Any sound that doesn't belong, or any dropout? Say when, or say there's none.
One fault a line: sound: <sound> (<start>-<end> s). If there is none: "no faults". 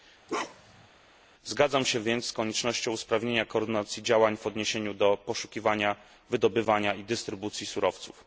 sound: bark (0.3-0.9 s)